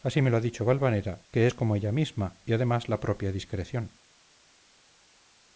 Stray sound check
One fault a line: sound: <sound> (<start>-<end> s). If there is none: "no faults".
no faults